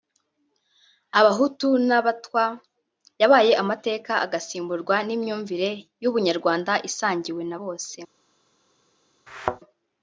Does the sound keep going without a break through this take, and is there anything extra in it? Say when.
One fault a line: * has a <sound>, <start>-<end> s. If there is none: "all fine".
* has a thud, 9.3-9.6 s